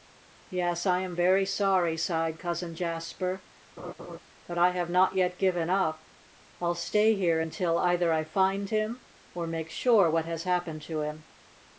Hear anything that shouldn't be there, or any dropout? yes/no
yes